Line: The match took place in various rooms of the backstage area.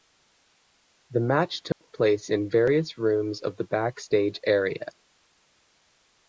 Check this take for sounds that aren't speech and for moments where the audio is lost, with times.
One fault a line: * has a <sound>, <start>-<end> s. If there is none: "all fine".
* has a dropout, 1.7-1.8 s